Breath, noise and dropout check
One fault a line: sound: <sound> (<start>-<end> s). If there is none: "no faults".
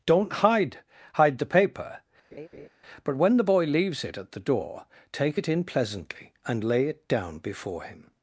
sound: laugh (2.3-2.7 s)